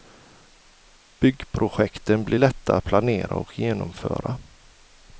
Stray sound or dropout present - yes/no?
no